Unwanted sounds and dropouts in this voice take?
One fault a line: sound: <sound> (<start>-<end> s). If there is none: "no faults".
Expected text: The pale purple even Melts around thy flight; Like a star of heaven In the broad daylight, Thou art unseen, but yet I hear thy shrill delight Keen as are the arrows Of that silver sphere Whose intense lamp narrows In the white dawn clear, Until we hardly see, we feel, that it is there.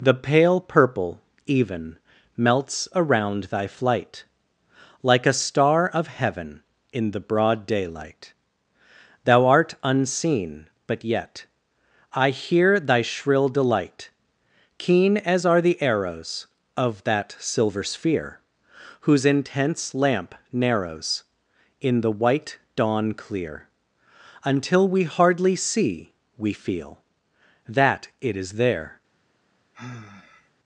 sound: sigh (29.7-30.5 s)